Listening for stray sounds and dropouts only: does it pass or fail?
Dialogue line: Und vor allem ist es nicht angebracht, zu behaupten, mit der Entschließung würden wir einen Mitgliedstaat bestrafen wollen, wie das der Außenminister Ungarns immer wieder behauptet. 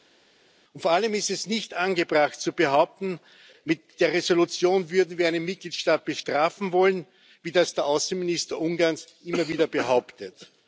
pass